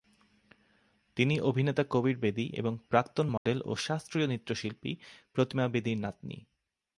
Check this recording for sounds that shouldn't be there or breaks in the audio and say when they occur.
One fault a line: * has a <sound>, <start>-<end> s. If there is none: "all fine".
* has a dropout, 3.4-3.5 s